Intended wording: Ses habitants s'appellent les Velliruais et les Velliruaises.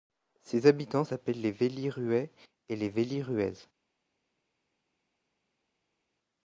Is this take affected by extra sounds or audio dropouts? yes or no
no